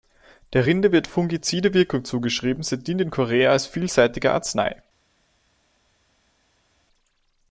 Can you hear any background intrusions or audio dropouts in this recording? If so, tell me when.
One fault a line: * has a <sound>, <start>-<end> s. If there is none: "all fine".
all fine